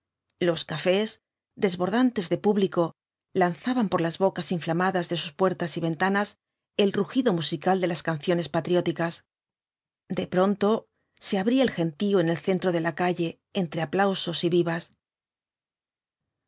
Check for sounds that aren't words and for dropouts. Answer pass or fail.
pass